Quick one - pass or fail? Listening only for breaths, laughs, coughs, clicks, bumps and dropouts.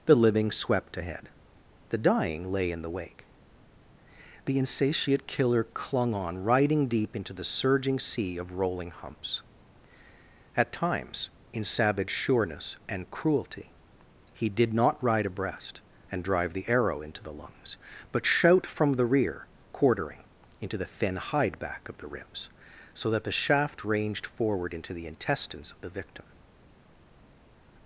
pass